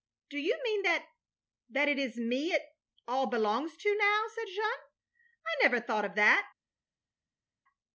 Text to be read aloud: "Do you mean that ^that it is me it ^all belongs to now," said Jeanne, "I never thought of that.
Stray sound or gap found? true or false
false